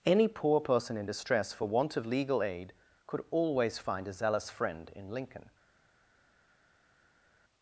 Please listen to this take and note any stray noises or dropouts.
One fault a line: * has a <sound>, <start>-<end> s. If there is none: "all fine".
all fine